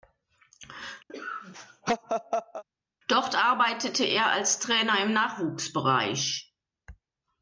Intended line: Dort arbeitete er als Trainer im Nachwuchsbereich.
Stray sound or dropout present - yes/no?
yes